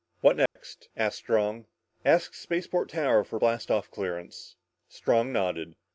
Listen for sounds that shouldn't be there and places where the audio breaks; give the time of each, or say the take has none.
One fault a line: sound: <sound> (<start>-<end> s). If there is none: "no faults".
sound: dropout (0.5-0.6 s)